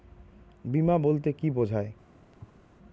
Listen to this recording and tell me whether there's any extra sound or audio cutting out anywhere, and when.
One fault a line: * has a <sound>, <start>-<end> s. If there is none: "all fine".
* has a thud, 2.3-2.6 s